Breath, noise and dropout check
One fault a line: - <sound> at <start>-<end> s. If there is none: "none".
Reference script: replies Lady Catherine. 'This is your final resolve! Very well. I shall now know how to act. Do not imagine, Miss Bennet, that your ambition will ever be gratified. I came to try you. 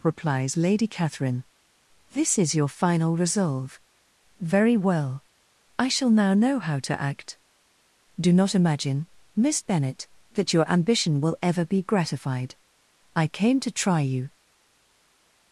none